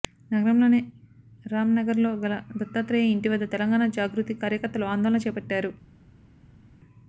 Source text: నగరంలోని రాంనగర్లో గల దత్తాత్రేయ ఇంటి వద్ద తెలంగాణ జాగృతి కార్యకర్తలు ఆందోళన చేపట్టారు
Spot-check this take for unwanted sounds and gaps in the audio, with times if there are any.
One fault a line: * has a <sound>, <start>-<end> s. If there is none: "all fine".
all fine